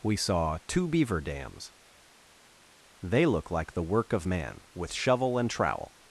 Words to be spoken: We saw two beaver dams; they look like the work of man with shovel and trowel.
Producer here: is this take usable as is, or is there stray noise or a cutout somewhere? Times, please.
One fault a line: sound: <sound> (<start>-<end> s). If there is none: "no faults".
no faults